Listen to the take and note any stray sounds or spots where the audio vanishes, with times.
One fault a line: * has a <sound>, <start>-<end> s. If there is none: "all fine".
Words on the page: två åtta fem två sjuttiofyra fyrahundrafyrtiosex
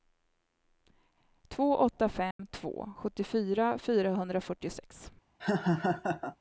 * has a dropout, 2.3-2.4 s
* has a laugh, 5.4-6.4 s